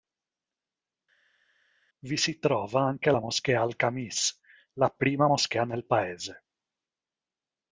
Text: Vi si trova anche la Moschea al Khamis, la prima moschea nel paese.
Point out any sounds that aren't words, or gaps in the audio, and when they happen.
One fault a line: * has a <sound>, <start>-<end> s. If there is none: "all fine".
all fine